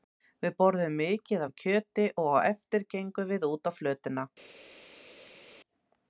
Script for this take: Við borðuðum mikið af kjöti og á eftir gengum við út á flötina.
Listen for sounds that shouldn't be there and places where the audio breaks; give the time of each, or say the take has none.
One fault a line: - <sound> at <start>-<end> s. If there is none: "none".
none